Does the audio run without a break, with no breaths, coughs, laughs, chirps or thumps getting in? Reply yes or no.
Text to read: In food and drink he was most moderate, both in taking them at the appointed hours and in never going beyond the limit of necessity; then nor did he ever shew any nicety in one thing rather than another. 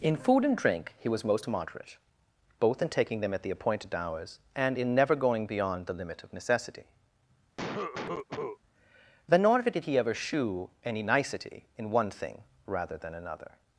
no